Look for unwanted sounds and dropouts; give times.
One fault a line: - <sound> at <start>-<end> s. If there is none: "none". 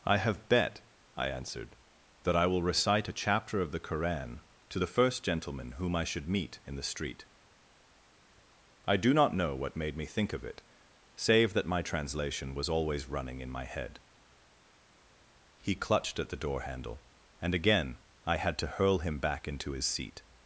none